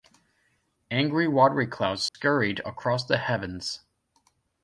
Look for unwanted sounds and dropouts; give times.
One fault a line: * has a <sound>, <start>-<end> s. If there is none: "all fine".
* has a dropout, 2.1-2.1 s